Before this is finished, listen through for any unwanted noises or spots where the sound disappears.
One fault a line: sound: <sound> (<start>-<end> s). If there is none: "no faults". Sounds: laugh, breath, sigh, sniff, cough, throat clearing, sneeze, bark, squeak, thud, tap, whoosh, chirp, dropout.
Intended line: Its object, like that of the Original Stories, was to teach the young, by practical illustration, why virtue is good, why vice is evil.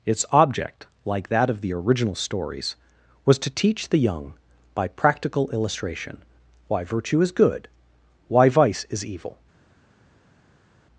no faults